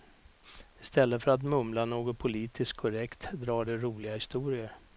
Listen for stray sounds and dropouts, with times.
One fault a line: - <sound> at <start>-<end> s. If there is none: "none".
none